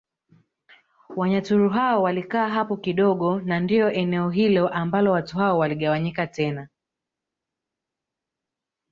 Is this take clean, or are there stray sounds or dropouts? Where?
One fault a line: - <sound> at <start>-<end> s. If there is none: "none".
none